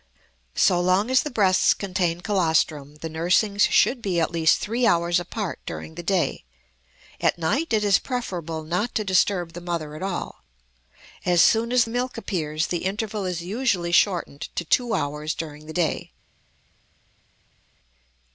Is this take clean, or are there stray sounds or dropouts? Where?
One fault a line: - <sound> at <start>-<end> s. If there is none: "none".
none